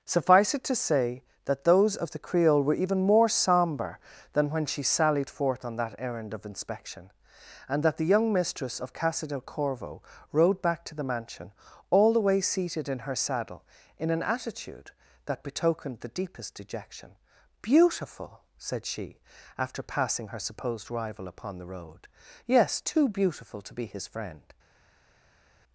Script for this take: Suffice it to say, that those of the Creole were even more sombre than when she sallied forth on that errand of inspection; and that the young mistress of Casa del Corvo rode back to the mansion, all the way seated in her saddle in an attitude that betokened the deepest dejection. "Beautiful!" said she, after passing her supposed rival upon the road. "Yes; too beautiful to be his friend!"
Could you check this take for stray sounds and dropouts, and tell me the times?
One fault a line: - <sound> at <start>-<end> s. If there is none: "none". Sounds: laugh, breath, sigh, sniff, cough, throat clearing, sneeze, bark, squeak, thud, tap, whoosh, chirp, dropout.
none